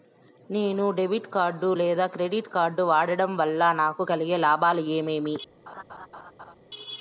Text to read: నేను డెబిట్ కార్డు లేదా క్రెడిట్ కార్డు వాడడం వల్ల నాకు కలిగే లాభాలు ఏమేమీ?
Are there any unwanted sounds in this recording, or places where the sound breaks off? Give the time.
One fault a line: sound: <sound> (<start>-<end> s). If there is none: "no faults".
sound: laugh (5.7-6.5 s)